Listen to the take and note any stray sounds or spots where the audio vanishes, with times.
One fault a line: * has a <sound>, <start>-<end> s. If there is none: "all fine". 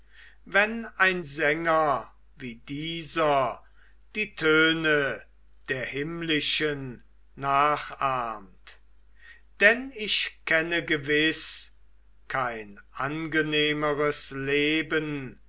all fine